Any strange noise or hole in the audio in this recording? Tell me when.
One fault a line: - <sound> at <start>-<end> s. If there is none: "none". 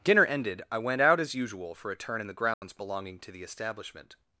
- dropout at 2.5-2.6 s